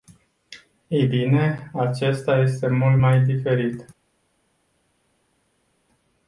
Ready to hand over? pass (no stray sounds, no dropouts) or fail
pass